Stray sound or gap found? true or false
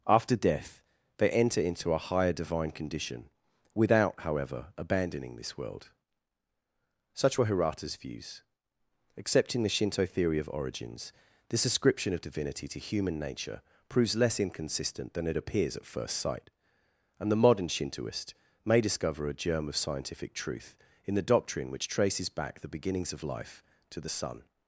false